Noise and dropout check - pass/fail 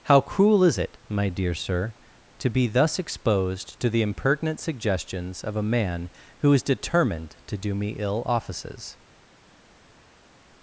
pass